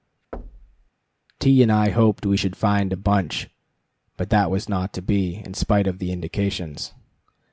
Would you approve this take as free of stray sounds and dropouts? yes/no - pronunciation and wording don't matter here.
no